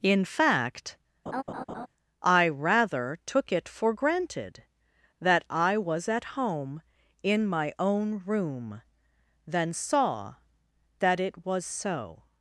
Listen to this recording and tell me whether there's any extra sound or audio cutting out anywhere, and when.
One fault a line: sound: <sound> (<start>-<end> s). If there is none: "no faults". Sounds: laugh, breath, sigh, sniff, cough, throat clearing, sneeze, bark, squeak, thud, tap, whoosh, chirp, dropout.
sound: laugh (1.3-1.9 s)